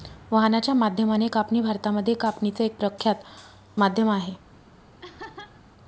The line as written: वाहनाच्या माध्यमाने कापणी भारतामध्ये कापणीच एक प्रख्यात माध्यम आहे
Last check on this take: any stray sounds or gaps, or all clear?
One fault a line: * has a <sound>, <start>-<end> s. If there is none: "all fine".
* has a laugh, 5.0-5.6 s